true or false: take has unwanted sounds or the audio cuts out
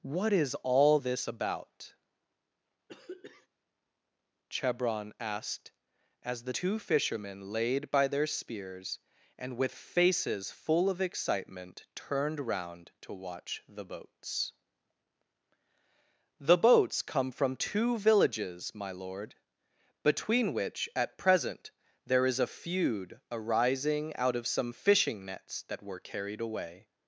true